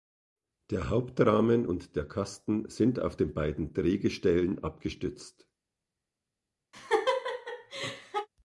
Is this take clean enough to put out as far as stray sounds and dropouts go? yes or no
no